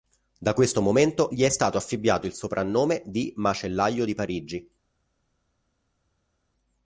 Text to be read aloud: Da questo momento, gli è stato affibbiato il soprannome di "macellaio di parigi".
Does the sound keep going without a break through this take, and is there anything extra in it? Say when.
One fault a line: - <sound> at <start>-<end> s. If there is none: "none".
none